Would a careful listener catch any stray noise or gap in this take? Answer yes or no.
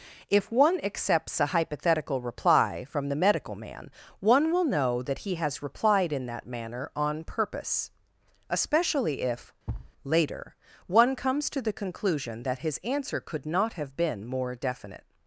yes